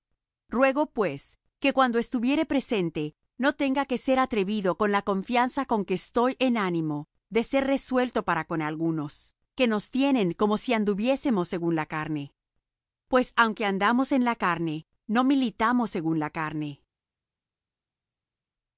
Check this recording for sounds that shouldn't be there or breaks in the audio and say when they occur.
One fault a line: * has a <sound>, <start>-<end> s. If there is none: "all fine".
all fine